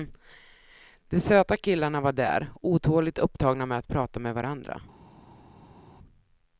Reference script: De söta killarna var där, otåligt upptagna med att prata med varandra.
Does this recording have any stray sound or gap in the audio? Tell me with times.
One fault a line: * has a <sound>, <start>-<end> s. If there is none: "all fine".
all fine